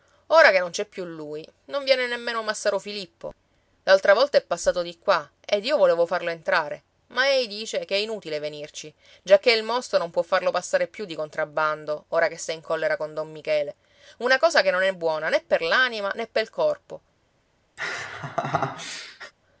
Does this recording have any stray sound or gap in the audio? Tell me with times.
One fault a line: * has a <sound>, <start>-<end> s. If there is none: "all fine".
* has a laugh, 17.8-19.3 s